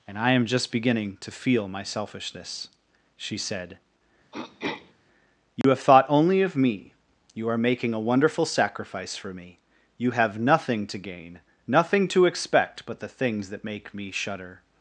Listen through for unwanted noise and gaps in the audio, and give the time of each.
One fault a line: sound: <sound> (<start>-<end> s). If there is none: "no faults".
sound: throat clearing (4.3-4.9 s)
sound: dropout (5.6-5.6 s)